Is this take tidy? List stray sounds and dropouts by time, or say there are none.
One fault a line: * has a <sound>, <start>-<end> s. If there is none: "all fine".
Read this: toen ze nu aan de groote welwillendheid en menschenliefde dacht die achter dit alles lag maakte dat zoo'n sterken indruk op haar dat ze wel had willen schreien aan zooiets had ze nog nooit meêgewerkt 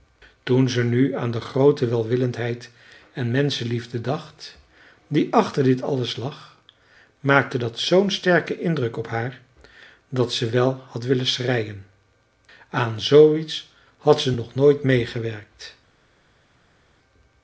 all fine